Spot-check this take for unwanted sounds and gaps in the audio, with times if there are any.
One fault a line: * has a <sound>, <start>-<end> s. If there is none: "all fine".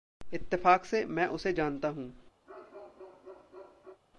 * has a bark, 2.5-4.0 s